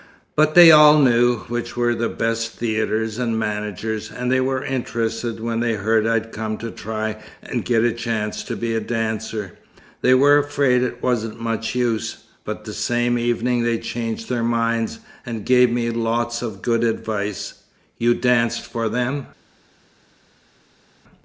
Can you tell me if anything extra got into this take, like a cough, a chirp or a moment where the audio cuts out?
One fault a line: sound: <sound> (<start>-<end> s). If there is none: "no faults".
no faults